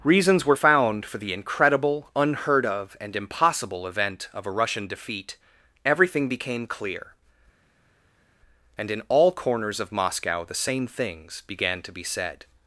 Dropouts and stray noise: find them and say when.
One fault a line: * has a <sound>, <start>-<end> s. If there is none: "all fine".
all fine